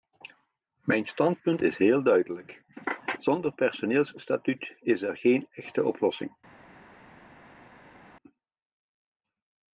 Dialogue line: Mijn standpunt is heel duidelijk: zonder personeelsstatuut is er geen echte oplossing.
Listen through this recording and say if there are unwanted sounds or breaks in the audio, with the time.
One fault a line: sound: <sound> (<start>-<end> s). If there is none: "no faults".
no faults